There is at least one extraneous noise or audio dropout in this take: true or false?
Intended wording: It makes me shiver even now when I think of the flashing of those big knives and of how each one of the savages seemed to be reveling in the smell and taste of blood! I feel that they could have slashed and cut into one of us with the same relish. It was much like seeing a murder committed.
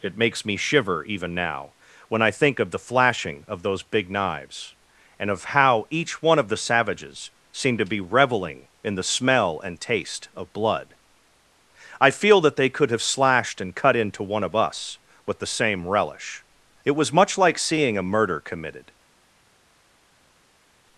false